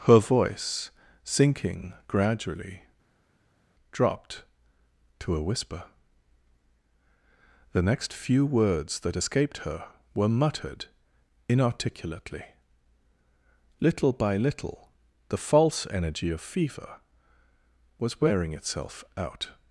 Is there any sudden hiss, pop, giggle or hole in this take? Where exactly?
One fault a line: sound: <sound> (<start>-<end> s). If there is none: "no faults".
no faults